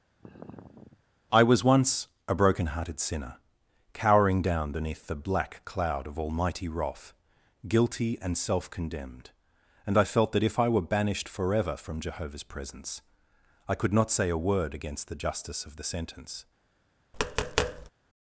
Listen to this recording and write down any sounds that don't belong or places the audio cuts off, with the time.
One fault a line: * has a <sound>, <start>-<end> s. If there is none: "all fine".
* has a sigh, 0.2-1.0 s
* has a tap, 17.1-17.9 s